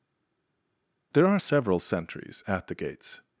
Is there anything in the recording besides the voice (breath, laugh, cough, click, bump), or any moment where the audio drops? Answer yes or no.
no